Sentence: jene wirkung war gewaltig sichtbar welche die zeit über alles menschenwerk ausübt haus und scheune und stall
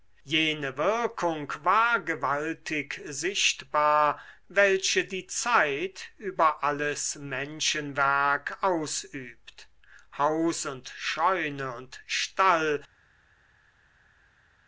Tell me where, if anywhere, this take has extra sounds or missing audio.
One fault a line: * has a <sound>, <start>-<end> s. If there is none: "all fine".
all fine